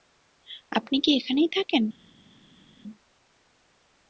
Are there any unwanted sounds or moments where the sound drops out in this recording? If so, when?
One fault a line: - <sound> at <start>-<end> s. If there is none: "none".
none